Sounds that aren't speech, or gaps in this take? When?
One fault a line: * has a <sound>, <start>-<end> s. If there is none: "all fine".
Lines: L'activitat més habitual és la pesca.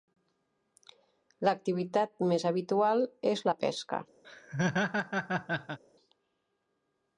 * has a laugh, 4.2-5.8 s